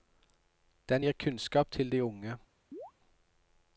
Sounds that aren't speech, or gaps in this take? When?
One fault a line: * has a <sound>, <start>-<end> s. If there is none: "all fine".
* has a chirp, 2.7-2.9 s